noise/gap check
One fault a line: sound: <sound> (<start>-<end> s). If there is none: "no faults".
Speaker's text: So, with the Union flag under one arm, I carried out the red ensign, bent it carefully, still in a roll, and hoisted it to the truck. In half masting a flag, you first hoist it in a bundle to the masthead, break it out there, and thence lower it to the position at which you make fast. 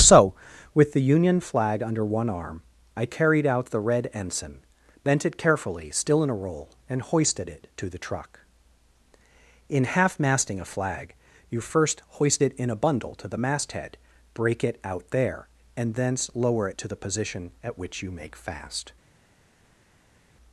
no faults